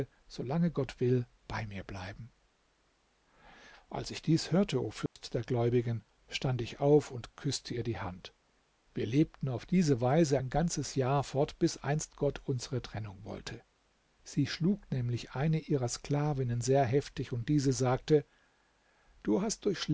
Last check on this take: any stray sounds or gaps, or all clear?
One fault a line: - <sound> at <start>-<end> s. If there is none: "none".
- dropout at 5.1-5.2 s